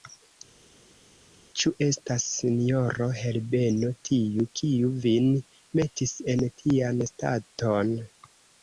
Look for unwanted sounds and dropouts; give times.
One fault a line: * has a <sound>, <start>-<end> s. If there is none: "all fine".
all fine